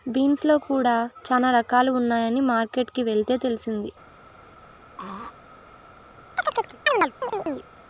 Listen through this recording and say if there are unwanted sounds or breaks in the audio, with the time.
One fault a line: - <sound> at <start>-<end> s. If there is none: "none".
- throat clearing at 5.0-5.3 s
- chirp at 6.4-7.7 s